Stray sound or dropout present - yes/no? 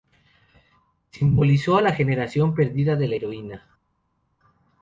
no